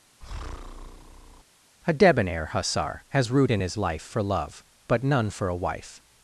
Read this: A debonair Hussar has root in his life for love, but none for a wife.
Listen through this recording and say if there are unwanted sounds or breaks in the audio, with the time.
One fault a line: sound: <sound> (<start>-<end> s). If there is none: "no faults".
sound: breath (0.2-1.4 s)